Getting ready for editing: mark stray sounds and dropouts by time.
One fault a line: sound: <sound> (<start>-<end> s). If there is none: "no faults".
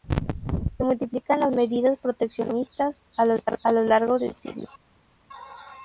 no faults